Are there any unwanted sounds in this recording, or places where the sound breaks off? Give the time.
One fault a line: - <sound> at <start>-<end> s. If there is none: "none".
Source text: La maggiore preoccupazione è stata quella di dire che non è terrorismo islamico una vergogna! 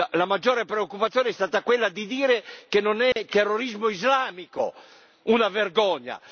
- dropout at 3.1-3.2 s